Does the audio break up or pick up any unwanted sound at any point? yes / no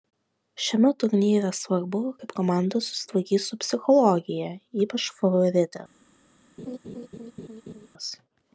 yes